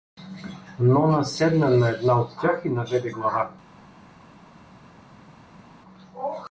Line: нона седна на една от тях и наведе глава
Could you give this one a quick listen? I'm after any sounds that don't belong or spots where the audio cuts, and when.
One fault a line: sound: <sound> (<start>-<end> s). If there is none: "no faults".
no faults